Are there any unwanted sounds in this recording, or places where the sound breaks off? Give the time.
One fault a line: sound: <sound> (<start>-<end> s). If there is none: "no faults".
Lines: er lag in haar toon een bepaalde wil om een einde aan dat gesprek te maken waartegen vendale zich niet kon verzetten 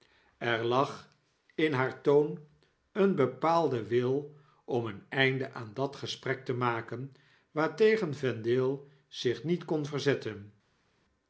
no faults